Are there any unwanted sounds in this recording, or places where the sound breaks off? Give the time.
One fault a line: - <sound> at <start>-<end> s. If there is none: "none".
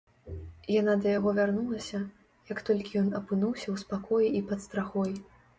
none